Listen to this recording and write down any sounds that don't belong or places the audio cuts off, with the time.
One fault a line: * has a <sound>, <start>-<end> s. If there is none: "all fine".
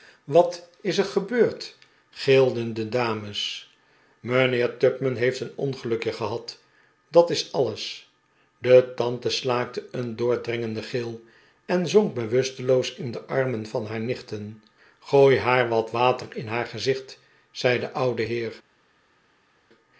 all fine